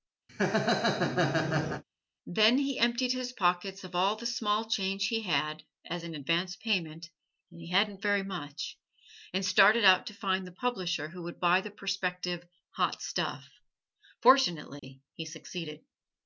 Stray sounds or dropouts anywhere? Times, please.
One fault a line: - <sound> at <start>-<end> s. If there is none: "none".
- laugh at 0.3-1.8 s
- dropout at 14.8-14.8 s